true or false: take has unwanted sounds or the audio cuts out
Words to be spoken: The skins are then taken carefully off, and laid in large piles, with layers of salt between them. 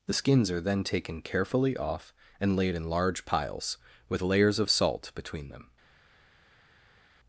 false